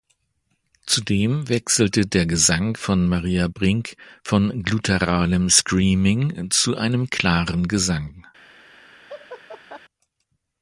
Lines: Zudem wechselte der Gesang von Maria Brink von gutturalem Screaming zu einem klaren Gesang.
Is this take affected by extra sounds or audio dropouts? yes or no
yes